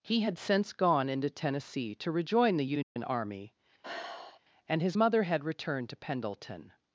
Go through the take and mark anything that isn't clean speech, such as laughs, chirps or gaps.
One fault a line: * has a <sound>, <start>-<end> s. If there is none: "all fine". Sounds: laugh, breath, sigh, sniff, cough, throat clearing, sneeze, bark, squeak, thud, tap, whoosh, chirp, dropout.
* has a dropout, 2.8-3.0 s
* has a sigh, 3.8-4.4 s